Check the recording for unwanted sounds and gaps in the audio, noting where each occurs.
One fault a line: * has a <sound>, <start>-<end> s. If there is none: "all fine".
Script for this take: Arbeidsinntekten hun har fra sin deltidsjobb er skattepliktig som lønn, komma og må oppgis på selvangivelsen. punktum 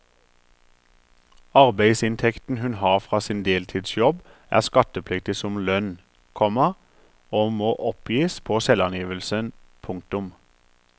all fine